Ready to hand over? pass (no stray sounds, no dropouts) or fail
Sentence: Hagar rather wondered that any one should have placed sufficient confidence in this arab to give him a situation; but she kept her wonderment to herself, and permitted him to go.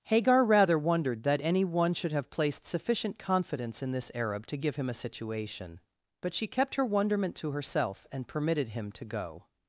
pass